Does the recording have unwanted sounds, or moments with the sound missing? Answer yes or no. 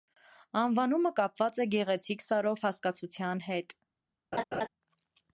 yes